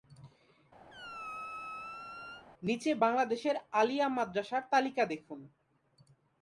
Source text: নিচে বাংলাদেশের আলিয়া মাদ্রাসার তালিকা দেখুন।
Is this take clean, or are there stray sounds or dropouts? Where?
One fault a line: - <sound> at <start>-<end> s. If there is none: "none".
- squeak at 0.9-2.5 s